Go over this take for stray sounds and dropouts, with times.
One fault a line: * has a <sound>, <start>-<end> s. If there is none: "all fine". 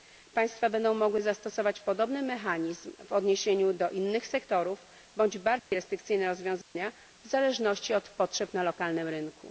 * has a dropout, 5.6-5.7 s
* has a dropout, 6.6-6.8 s